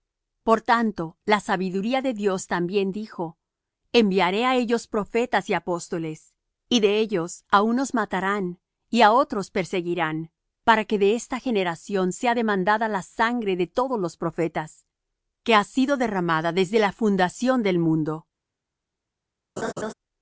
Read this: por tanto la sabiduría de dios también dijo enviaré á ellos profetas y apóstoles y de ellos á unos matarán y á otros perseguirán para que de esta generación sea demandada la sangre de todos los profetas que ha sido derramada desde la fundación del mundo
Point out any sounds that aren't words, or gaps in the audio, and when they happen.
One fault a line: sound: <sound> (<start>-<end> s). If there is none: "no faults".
sound: laugh (19.6-19.9 s)